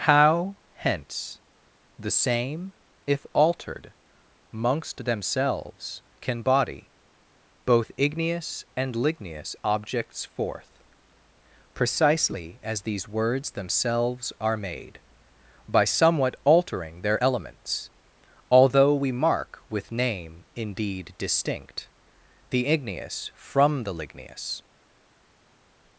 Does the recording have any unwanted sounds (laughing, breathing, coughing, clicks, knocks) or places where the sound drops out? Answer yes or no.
no